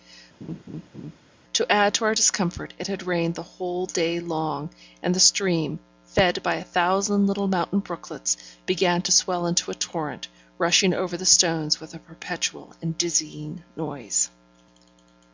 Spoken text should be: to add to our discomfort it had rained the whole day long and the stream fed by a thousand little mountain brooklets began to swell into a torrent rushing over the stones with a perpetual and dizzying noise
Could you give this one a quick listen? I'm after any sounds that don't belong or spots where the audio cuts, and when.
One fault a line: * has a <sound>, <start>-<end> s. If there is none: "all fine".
* has a laugh, 0.4-1.2 s